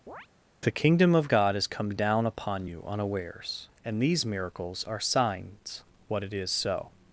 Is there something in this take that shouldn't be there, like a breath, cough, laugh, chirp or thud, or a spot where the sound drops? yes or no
yes